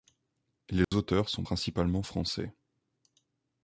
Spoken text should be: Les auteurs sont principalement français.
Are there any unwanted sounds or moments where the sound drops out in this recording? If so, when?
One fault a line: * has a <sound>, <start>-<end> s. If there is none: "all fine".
* has a dropout, 0.8-0.9 s